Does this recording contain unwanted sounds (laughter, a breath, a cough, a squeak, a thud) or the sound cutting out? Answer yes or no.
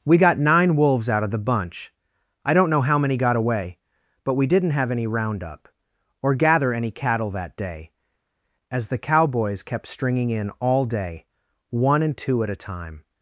no